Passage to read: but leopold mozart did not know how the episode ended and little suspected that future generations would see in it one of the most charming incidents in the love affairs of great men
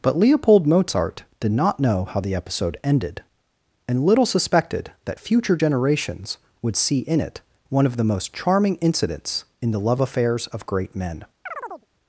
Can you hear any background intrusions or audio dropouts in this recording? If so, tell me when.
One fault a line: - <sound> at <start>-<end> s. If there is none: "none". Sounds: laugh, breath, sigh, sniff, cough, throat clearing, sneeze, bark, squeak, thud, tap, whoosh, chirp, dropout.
- chirp at 11.5-11.9 s